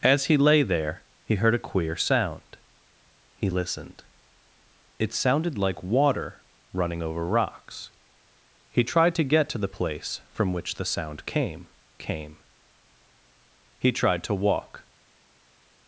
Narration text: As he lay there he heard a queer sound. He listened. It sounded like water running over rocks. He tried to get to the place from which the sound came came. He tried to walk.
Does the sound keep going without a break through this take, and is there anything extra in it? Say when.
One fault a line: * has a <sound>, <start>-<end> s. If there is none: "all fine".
all fine